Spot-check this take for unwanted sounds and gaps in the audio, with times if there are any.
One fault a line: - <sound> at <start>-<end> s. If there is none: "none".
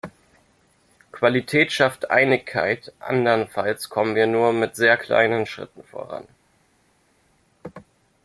none